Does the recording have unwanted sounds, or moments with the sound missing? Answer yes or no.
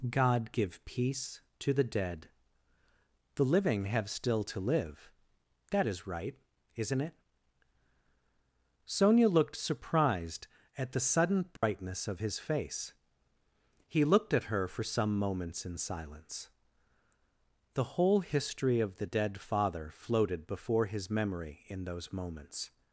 yes